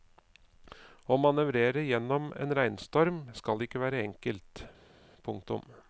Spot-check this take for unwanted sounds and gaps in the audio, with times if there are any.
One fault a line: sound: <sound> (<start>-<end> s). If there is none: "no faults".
no faults